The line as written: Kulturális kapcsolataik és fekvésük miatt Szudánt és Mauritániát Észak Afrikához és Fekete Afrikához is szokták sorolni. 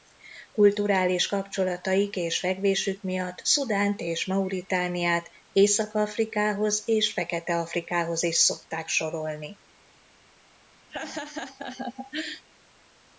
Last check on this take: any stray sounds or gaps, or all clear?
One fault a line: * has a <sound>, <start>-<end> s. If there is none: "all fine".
* has a laugh, 10.9-12.4 s